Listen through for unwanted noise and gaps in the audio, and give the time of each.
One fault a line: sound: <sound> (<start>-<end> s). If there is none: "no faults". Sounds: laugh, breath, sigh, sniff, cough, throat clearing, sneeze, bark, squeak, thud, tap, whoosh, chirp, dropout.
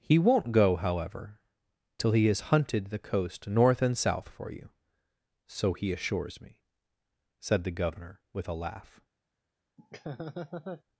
sound: laugh (9.8-10.8 s)